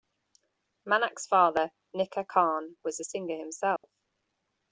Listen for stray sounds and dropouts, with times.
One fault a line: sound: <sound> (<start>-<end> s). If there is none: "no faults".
sound: dropout (3.8-3.8 s)